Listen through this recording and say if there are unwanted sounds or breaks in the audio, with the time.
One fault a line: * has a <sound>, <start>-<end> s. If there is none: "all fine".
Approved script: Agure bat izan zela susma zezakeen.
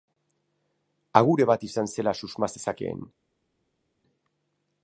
all fine